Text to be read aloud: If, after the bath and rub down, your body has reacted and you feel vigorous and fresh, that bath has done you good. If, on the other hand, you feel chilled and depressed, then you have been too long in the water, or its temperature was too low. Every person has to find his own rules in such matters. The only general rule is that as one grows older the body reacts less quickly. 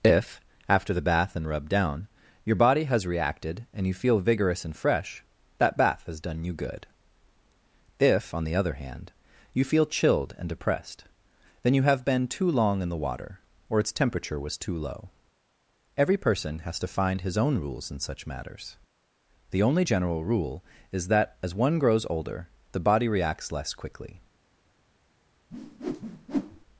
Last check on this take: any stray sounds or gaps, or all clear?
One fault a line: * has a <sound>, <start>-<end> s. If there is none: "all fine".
* has a whoosh, 25.5-26.7 s